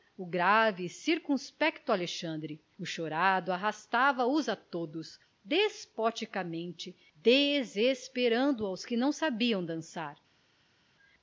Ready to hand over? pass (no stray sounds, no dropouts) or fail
pass